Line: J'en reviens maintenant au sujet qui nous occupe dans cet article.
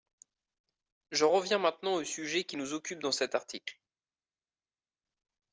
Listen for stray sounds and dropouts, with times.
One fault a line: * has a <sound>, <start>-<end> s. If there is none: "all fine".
all fine